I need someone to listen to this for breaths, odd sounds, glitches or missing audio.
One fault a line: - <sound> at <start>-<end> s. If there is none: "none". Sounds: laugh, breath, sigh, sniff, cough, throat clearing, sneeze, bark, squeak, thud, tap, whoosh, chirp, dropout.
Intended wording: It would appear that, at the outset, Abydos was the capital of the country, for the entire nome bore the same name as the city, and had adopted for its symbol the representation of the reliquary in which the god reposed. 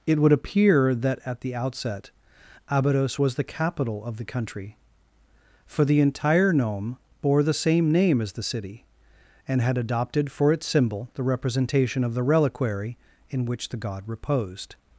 none